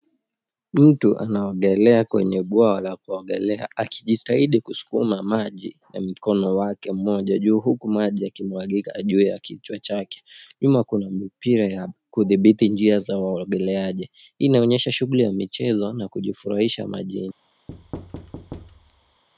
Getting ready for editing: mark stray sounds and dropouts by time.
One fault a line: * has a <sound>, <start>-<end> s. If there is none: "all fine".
* has a thud, 17.7-19.2 s